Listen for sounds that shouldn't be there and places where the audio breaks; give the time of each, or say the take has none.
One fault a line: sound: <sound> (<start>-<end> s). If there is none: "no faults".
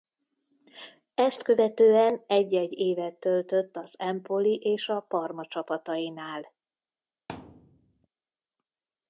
sound: thud (7.3-8.1 s)